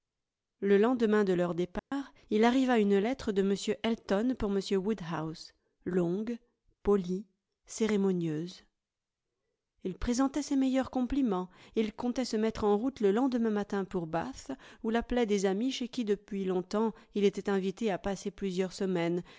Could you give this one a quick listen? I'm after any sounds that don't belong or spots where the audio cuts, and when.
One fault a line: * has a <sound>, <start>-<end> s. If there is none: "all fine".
* has a dropout, 1.8-1.9 s